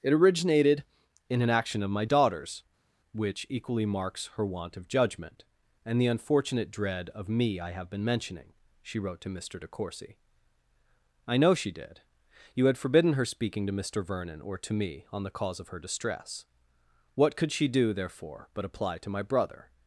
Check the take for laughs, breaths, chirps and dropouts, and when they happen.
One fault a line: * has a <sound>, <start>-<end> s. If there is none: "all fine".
all fine